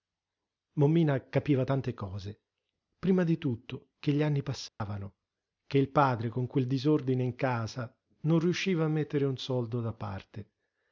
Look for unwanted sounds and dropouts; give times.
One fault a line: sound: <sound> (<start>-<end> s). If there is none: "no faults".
sound: dropout (4.7-4.8 s)